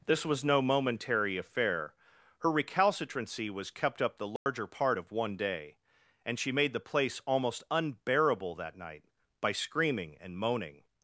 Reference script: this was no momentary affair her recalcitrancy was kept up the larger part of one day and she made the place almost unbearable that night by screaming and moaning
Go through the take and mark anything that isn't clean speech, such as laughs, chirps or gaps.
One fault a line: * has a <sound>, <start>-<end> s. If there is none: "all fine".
* has a dropout, 4.4-4.5 s